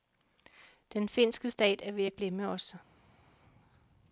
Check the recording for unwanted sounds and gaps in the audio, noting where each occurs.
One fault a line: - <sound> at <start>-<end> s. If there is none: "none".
none